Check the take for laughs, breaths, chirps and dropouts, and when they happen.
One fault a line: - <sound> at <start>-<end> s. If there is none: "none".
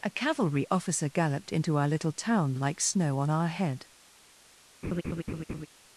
- laugh at 4.8-5.7 s